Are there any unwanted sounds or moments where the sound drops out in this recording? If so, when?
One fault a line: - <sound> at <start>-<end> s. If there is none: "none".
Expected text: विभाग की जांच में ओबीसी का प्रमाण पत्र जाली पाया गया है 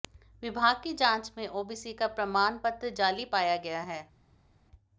none